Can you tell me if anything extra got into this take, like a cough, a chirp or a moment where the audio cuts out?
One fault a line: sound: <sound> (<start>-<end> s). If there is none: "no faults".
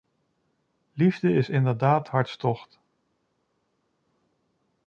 no faults